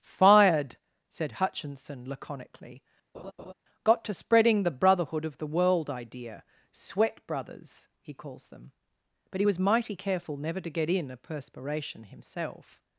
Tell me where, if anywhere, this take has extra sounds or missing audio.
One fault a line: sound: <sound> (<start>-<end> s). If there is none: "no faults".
sound: laugh (3.1-3.5 s)